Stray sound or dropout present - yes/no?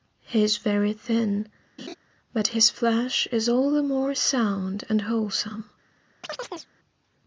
yes